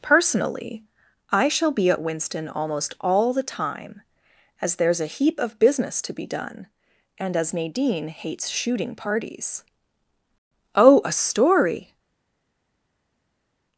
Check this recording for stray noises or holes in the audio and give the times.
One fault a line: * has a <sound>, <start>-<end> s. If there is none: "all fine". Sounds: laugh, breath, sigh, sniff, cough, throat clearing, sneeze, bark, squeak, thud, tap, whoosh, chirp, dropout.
all fine